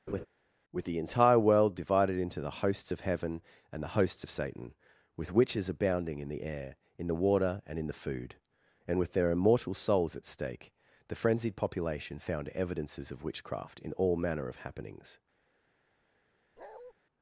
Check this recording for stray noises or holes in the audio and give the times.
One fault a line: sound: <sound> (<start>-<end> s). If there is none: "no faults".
sound: laugh (0.1-0.3 s)
sound: bark (16.6-16.9 s)